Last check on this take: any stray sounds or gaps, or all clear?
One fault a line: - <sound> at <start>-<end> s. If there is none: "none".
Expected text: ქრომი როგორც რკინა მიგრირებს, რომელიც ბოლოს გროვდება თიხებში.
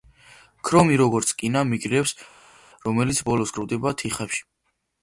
none